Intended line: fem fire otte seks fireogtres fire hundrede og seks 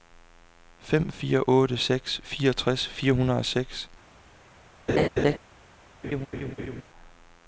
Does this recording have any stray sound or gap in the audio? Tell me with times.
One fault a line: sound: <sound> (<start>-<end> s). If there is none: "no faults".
sound: laugh (4.9-5.4 s)
sound: laugh (6.0-6.8 s)